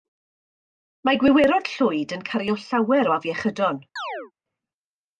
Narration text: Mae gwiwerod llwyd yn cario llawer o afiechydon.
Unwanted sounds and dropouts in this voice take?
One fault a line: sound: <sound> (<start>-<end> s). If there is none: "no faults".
sound: chirp (4.0-4.3 s)